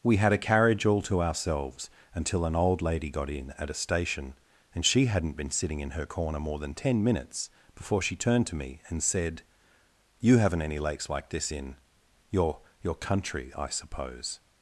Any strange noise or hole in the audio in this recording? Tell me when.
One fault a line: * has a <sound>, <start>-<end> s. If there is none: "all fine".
all fine